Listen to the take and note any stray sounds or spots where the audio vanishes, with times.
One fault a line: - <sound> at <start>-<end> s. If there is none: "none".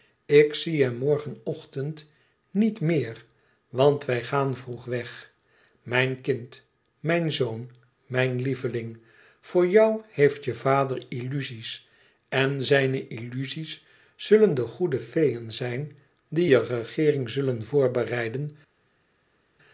none